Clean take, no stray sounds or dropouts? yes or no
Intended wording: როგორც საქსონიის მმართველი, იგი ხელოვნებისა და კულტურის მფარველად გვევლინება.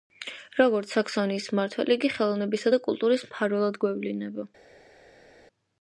yes